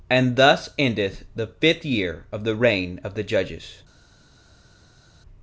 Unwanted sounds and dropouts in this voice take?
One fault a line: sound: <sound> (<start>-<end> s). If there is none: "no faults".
no faults